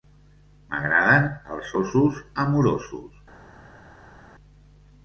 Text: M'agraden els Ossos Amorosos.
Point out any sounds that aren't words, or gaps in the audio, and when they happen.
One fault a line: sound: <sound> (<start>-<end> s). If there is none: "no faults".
no faults